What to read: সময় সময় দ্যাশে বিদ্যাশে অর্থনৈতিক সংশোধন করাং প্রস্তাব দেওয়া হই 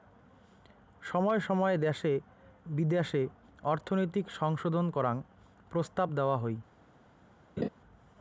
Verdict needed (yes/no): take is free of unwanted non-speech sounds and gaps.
no